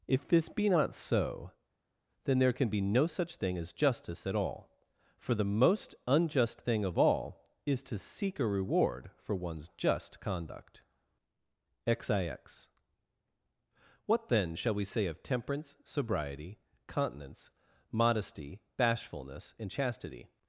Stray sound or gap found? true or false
false